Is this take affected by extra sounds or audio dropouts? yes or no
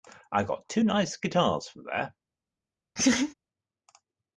yes